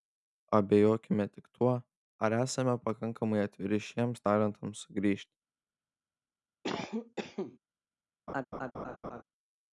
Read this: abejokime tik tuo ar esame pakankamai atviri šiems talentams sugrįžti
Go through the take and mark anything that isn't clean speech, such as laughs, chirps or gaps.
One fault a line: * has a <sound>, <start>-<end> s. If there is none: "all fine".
* has a cough, 6.6-7.6 s
* has a laugh, 8.3-9.2 s